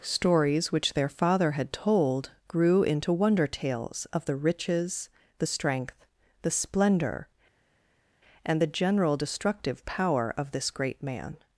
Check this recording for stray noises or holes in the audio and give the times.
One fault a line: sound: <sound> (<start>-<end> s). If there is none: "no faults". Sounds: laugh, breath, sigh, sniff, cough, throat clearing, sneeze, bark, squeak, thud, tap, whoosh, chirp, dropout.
no faults